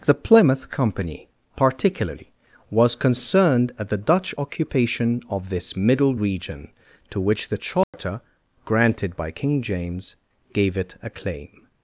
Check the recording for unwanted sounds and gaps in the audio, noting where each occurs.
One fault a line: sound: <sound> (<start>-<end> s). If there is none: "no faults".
sound: dropout (7.8-7.9 s)